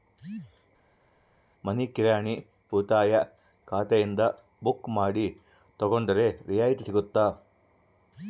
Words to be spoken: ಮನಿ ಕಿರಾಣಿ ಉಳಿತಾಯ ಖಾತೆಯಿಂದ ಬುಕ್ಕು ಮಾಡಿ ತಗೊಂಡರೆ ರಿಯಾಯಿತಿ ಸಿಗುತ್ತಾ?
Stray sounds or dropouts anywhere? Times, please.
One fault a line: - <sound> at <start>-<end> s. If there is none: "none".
none